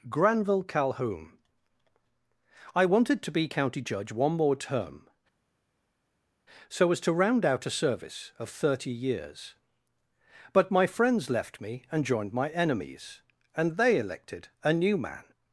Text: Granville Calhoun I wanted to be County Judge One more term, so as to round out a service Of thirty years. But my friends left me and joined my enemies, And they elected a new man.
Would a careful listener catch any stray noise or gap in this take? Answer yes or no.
no